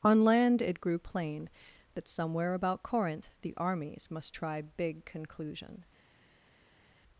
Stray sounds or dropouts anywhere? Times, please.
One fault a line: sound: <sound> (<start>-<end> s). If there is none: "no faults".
no faults